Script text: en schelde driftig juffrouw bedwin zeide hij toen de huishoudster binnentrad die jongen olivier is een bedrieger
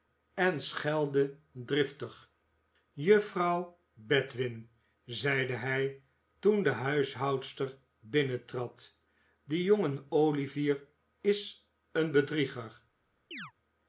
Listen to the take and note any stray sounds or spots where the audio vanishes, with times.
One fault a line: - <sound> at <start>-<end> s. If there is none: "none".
- chirp at 13.3-13.5 s